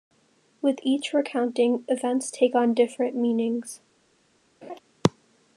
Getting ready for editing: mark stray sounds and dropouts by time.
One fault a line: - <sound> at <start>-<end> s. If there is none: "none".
- laugh at 4.6-4.8 s